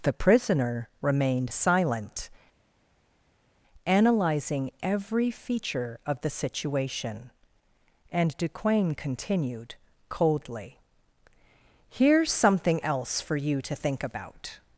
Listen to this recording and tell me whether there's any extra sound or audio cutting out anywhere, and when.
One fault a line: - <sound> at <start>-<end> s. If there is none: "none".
none